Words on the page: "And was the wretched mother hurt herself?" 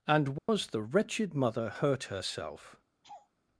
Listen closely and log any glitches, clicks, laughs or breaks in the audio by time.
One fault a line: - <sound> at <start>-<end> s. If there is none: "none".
- dropout at 0.4-0.5 s
- laugh at 3.0-3.3 s